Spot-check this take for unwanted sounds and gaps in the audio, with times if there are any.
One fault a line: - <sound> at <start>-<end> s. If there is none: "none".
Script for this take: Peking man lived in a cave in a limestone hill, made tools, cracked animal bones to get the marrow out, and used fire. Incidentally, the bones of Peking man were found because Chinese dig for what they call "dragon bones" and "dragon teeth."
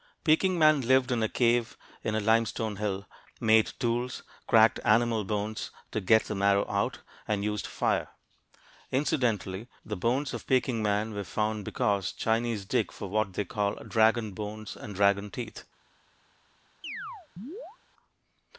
- chirp at 16.8-17.8 s